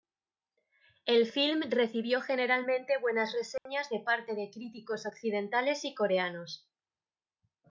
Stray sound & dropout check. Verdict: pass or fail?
fail